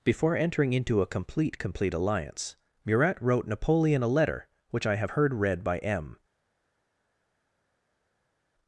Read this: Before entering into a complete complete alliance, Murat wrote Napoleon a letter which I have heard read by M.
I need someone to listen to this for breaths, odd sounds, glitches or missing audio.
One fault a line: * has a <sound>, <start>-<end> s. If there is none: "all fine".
all fine